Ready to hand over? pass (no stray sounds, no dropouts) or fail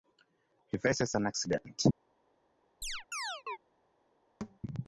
fail